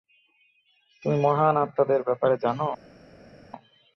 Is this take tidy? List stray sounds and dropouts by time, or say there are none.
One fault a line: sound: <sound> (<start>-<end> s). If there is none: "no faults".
no faults